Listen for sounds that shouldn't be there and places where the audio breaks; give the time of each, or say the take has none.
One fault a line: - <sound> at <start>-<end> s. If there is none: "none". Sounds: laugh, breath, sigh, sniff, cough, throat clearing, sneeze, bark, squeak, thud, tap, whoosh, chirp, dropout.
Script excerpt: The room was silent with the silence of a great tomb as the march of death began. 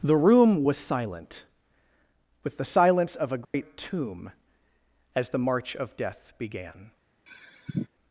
- dropout at 3.4-3.5 s
- sigh at 7.3-7.9 s